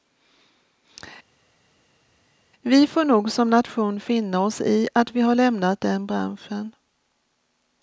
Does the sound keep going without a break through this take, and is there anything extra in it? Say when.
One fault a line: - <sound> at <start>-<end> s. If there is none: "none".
none